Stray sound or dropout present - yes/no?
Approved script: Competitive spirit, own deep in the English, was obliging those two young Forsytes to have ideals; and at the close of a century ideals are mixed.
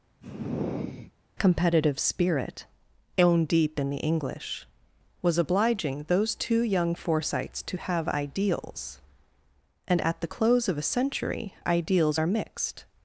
yes